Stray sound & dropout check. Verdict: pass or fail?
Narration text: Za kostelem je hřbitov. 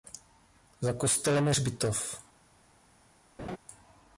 fail